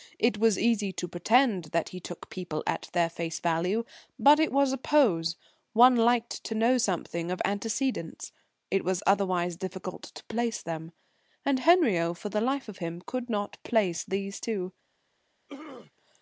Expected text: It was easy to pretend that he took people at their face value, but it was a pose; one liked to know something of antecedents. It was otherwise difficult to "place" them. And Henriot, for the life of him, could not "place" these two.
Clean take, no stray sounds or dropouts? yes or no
no